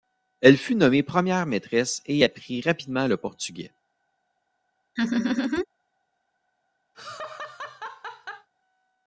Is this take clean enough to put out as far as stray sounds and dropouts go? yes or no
no